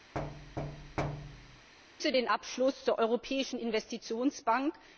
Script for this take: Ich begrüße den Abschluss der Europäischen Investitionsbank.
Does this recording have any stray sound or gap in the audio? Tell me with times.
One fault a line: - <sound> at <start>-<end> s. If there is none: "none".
- thud at 0.1-1.7 s